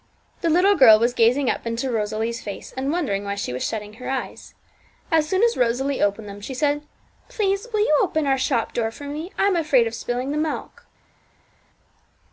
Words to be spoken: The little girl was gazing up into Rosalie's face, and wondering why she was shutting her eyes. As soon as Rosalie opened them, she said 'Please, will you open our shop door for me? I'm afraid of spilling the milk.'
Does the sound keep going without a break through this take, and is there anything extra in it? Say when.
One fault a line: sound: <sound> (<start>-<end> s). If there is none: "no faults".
no faults